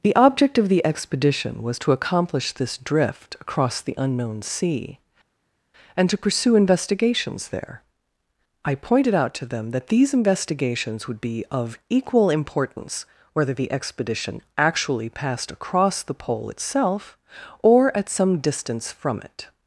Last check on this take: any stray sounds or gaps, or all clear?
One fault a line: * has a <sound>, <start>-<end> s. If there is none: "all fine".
all fine